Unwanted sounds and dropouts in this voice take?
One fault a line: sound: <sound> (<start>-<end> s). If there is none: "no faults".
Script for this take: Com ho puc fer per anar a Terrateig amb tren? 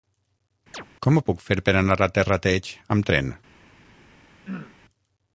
sound: chirp (0.7-0.9 s)
sound: throat clearing (4.5-4.8 s)